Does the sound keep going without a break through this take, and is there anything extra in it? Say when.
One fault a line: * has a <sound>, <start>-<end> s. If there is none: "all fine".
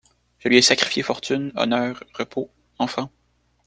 all fine